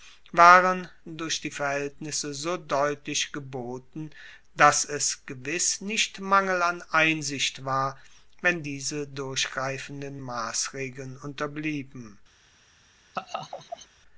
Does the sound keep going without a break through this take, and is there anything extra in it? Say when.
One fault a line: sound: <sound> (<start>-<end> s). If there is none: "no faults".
sound: laugh (13.1-13.9 s)